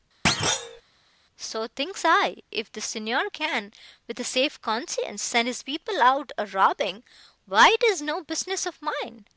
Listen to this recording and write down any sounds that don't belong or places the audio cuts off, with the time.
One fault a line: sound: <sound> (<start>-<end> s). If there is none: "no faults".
sound: thud (0.3-0.8 s)